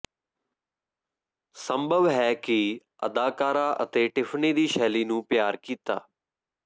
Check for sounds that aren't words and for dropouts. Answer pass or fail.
pass